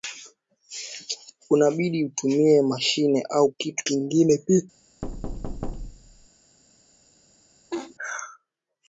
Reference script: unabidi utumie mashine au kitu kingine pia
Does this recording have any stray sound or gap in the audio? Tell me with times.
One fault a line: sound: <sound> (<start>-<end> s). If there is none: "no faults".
sound: thud (5.0-6.3 s)
sound: laugh (7.7-8.0 s)